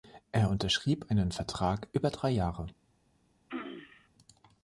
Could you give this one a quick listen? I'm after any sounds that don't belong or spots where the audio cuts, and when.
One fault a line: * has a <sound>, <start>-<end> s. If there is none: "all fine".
* has a throat clearing, 3.5-4.1 s